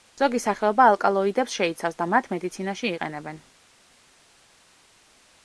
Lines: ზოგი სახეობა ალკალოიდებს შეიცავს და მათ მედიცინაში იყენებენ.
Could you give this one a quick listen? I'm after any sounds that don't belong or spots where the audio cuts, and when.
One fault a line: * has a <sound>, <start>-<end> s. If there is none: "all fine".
all fine